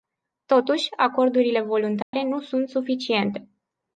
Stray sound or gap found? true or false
true